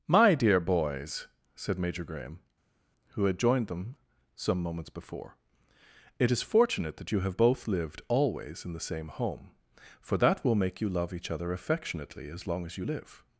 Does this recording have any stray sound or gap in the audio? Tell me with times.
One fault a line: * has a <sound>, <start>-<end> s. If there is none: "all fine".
all fine